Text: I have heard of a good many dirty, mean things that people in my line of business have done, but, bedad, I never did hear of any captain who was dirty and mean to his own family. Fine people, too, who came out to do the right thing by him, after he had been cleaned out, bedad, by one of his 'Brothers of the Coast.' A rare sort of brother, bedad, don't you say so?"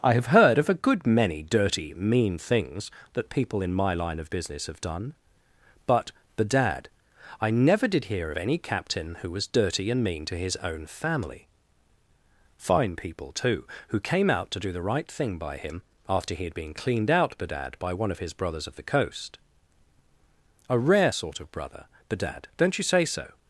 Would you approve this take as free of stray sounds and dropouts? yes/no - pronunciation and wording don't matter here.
yes